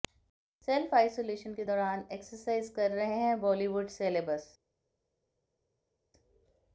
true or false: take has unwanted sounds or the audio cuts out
false